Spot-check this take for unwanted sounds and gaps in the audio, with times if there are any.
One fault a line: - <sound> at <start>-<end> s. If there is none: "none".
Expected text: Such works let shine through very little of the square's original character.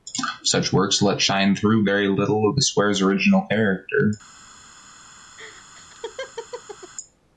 - laugh at 5.4-6.9 s